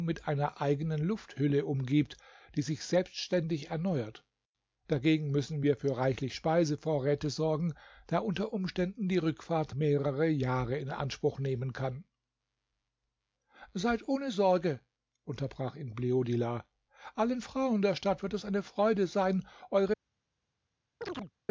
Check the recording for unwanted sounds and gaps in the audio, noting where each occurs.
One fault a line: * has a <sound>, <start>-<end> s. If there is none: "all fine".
* has a chirp, 21.0-21.3 s